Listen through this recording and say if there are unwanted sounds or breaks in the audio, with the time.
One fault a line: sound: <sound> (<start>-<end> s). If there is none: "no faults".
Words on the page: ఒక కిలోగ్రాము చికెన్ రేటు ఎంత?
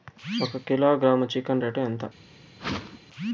sound: whoosh (2.6-3.0 s)